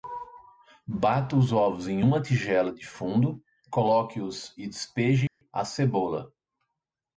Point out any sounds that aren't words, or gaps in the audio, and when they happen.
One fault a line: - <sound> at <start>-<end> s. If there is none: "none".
- dropout at 5.3-5.4 s